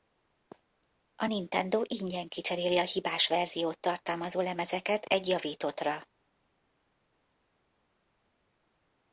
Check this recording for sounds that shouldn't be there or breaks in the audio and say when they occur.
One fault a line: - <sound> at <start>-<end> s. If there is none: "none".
none